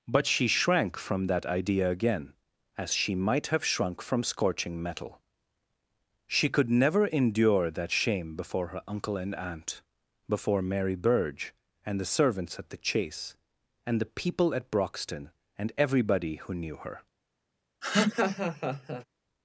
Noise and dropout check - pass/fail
fail